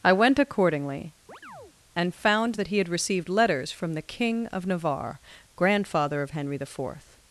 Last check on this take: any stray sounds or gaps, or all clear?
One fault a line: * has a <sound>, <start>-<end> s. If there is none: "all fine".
* has a chirp, 1.3-1.7 s